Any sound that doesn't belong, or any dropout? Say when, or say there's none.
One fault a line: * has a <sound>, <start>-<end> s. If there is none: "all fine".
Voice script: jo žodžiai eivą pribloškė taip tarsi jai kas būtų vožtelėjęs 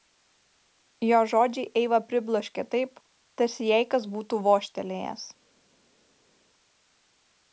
all fine